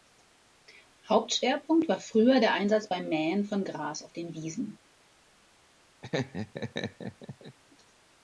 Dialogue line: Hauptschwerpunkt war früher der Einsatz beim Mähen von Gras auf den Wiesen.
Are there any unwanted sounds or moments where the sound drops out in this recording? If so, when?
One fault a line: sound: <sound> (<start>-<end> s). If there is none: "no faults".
sound: laugh (6.0-7.6 s)